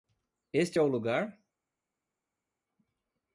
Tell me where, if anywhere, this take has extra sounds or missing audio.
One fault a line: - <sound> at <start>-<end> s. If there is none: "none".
none